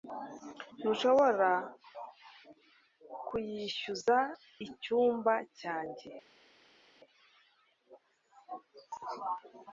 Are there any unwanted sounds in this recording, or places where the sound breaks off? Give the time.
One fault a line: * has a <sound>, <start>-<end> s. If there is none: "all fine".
all fine